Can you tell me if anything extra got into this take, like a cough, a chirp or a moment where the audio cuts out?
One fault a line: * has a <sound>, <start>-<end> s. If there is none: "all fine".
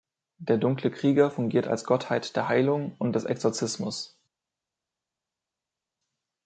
all fine